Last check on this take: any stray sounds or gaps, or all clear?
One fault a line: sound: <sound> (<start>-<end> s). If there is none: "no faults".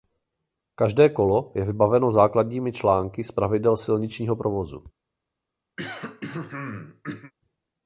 sound: throat clearing (5.8-7.3 s)